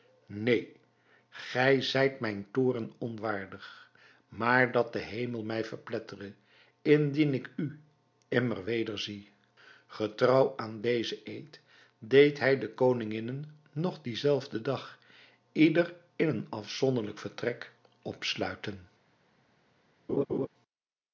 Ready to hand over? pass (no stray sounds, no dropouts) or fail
fail